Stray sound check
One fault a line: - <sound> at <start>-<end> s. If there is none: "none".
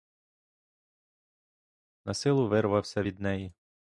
none